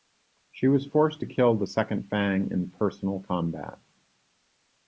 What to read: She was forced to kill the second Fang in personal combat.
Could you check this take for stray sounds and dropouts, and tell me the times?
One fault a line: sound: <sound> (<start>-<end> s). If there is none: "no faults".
no faults